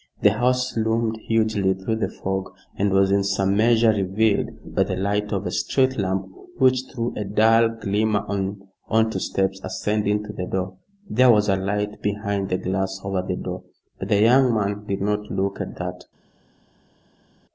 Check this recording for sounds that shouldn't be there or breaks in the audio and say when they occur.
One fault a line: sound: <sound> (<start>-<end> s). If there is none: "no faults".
no faults